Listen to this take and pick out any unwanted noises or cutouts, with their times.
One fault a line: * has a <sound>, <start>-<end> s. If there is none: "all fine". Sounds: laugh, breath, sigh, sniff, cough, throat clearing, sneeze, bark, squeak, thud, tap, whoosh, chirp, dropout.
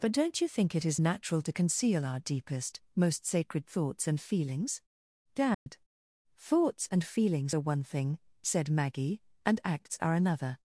* has a dropout, 5.5-5.7 s